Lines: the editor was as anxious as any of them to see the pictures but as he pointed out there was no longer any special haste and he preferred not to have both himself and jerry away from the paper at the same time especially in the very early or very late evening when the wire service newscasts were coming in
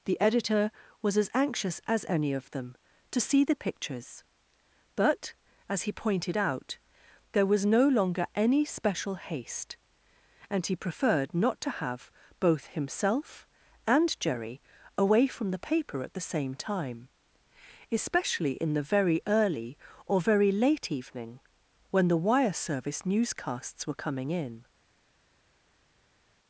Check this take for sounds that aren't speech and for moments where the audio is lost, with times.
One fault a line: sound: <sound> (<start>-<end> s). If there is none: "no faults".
no faults